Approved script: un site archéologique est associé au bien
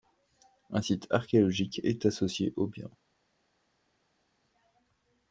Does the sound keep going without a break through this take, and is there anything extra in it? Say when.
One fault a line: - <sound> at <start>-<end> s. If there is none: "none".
none